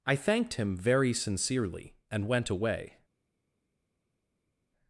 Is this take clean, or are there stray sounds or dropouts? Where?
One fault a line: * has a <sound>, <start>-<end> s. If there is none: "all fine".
all fine